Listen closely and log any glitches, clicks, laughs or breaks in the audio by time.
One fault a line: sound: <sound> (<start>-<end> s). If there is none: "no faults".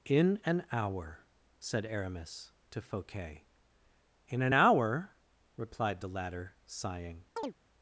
sound: chirp (7.4-7.5 s)